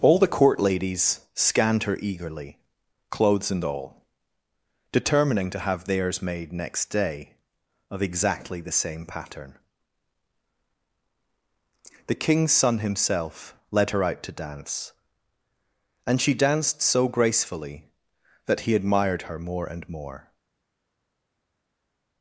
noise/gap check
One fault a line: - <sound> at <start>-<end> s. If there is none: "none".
none